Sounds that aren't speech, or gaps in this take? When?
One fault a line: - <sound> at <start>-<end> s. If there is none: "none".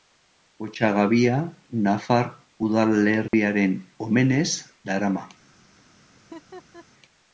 - dropout at 3.3-3.3 s
- laugh at 6.2-6.9 s